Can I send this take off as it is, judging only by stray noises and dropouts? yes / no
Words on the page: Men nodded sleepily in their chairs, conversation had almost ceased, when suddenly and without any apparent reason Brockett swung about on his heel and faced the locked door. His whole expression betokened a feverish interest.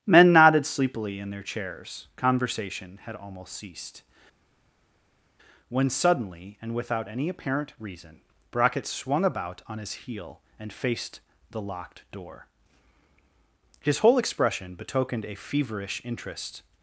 yes